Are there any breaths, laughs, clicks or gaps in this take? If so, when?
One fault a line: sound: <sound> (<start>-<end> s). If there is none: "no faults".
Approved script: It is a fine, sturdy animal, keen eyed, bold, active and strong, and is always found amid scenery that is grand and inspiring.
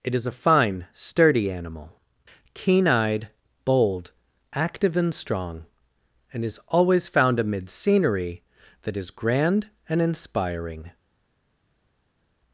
no faults